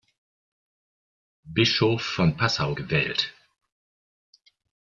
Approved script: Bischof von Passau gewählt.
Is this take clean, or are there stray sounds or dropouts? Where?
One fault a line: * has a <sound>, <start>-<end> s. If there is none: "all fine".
all fine